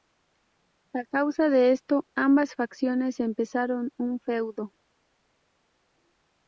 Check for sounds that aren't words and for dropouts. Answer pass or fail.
pass